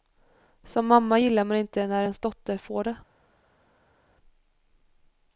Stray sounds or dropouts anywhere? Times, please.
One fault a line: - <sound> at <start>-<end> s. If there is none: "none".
none